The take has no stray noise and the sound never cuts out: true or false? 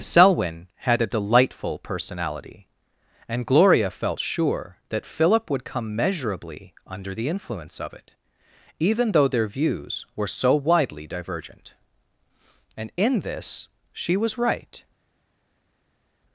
true